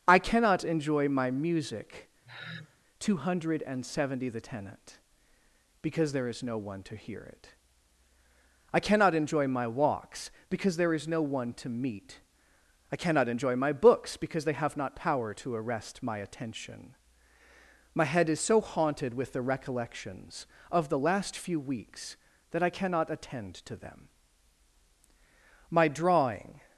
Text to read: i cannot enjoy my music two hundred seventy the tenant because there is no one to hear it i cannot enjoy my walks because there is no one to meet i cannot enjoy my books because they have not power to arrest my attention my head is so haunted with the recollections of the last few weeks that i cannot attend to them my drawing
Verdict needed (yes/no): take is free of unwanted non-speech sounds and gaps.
no